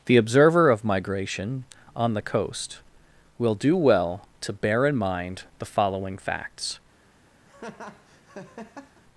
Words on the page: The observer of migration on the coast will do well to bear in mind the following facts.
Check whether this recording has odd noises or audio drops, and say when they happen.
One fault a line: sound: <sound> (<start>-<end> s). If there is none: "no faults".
sound: laugh (7.5-9.0 s)